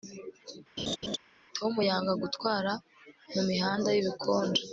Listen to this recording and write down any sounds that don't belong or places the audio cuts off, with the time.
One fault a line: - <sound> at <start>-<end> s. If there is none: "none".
- laugh at 0.8-1.2 s